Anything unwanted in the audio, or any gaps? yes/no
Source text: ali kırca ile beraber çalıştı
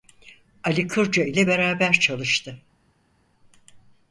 no